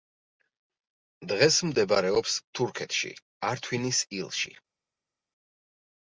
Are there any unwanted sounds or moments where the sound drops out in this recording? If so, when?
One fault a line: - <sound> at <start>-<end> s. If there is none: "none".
none